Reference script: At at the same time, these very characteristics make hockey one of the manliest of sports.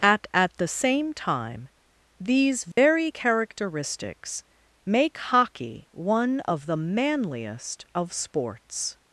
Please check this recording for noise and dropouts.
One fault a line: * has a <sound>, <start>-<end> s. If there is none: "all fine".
* has a dropout, 2.7-2.8 s